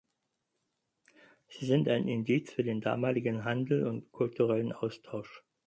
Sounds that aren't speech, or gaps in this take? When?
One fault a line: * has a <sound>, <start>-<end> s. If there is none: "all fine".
all fine